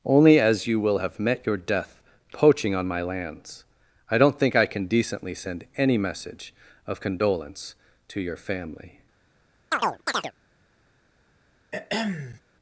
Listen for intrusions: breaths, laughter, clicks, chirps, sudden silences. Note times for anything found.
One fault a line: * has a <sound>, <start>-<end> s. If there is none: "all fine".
* has a chirp, 9.7-10.3 s
* has a throat clearing, 11.7-12.4 s